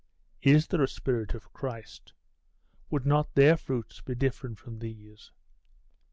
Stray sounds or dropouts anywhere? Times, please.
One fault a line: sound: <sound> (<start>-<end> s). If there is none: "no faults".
no faults